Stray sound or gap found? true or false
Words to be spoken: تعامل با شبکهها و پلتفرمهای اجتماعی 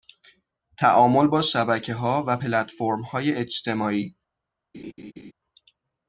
true